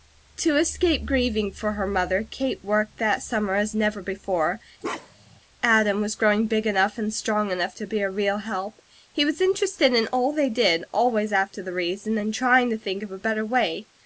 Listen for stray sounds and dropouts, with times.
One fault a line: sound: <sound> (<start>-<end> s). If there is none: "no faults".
sound: bark (4.8-5.4 s)